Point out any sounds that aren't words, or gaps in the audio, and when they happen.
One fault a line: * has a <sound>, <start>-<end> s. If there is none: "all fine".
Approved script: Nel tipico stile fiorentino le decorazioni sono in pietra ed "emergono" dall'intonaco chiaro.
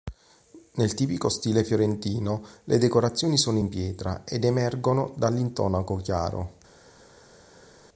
all fine